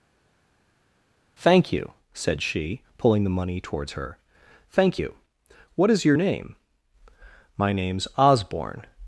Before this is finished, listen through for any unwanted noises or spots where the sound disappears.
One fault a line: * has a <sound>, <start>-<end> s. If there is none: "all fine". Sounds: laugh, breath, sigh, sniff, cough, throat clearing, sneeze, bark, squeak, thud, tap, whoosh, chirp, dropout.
all fine